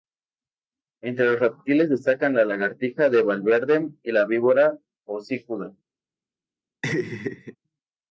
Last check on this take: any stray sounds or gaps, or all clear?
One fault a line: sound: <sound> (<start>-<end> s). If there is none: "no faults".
sound: laugh (6.8-7.6 s)